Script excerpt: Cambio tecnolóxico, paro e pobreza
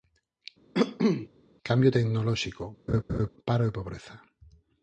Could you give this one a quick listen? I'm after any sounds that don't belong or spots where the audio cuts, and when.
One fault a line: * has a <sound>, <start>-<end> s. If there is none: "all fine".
* has a cough, 0.7-1.3 s
* has a laugh, 2.9-3.3 s